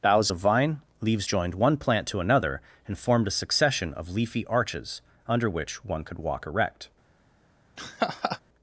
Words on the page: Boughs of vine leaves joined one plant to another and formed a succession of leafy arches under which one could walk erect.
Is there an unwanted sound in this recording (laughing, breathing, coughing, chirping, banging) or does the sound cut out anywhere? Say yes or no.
yes